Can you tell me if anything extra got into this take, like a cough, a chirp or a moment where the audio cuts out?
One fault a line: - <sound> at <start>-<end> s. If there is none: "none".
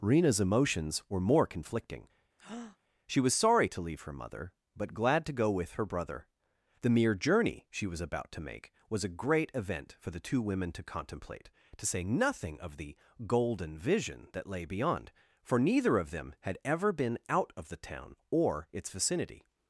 - breath at 2.4-2.8 s